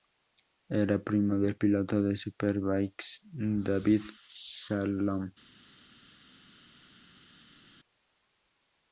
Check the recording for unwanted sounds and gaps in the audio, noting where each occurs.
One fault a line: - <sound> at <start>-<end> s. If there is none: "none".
none